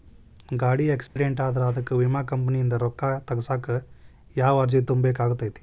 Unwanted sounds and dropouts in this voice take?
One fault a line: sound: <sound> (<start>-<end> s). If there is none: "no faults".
sound: dropout (1.1-1.2 s)